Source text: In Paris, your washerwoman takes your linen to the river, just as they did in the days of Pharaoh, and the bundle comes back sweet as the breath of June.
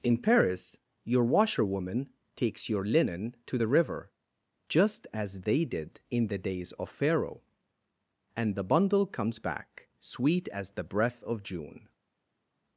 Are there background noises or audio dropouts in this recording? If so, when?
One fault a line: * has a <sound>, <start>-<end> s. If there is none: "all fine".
all fine